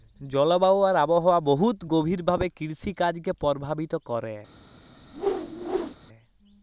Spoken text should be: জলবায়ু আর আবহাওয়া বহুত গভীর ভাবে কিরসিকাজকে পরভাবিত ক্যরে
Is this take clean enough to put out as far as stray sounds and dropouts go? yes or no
no